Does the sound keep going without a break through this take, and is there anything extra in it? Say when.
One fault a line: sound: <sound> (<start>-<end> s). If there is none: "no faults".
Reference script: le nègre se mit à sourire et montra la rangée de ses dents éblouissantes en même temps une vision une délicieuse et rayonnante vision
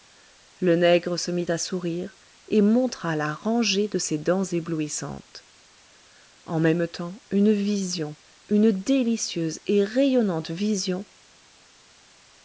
no faults